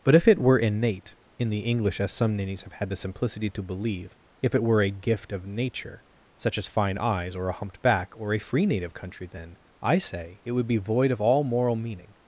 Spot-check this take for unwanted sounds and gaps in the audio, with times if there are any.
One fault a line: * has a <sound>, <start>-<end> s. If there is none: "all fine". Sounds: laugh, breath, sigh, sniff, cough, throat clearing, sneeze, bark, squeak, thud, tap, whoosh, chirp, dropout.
all fine